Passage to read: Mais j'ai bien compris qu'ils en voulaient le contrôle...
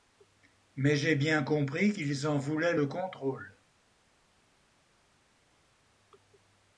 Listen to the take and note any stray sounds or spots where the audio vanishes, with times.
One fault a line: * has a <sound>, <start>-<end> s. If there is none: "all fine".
all fine